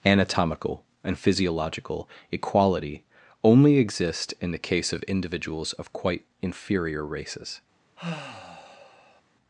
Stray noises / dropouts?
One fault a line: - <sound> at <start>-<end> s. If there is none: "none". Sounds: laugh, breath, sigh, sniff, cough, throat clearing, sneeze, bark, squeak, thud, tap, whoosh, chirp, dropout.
- sigh at 8.0-9.2 s